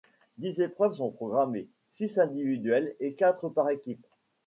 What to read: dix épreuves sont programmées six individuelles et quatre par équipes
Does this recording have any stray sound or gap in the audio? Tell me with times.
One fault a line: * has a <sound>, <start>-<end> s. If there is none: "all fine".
all fine